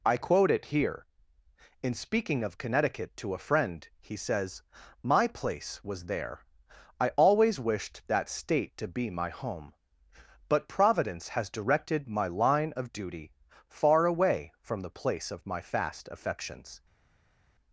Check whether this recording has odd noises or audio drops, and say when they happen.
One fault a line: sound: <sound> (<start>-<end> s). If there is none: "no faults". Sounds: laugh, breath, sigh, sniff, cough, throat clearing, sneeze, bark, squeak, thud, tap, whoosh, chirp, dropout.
no faults